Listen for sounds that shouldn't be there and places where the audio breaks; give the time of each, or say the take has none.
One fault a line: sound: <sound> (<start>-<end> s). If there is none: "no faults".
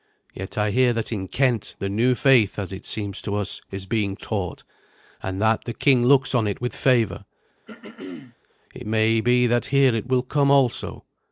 sound: throat clearing (7.7-8.4 s)